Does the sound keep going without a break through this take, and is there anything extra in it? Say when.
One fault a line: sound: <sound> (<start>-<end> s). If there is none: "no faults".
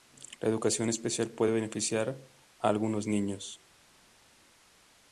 no faults